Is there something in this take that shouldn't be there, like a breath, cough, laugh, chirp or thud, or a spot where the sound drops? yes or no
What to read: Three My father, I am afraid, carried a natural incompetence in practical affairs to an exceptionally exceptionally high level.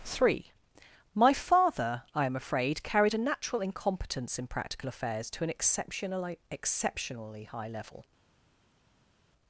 no